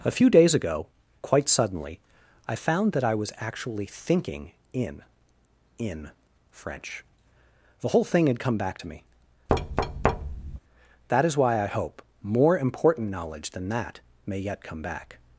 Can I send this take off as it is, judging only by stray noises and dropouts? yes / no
no